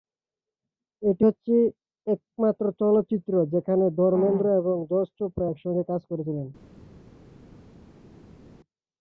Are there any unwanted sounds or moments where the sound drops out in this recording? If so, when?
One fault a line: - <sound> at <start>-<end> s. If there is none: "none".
none